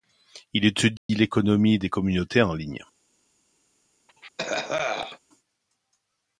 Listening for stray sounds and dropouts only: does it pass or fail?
fail